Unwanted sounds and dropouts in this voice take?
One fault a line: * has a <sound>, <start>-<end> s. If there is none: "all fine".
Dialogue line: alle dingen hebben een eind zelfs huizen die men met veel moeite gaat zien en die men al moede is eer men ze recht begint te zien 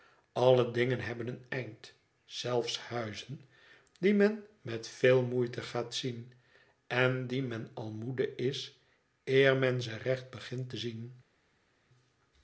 all fine